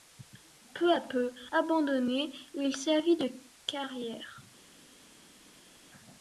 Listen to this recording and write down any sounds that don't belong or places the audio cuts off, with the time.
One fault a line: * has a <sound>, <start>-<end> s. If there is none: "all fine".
all fine